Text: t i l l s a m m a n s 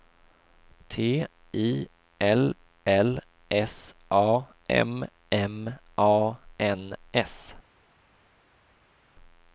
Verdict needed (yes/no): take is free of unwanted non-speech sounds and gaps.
yes